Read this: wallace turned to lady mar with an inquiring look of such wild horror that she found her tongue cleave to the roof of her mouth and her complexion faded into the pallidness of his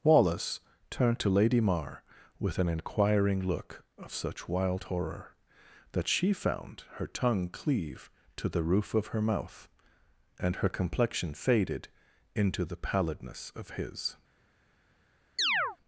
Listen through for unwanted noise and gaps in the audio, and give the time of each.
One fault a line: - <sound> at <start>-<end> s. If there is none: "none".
- chirp at 15.4-15.8 s